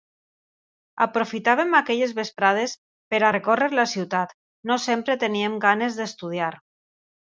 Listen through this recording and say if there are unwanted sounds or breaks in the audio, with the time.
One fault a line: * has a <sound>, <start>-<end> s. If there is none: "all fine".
all fine